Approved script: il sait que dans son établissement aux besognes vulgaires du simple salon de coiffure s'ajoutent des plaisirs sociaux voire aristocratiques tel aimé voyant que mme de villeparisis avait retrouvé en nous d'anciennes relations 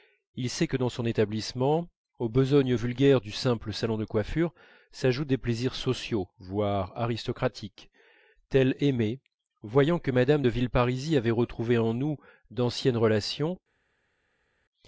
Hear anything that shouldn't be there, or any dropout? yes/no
no